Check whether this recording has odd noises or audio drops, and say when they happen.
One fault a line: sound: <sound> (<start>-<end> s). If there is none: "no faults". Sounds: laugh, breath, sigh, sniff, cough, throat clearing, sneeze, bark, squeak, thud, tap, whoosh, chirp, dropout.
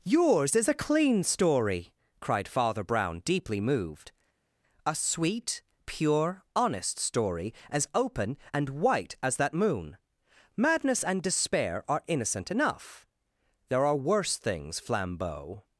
no faults